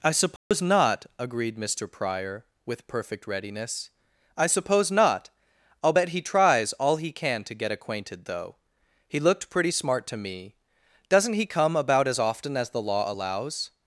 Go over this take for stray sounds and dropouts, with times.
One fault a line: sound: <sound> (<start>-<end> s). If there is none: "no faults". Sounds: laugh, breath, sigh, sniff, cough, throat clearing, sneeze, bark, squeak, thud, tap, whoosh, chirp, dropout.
sound: dropout (0.4-0.5 s)